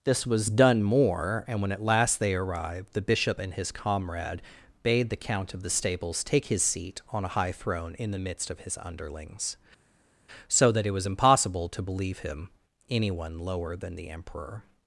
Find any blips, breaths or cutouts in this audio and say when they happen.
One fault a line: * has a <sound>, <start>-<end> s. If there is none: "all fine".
all fine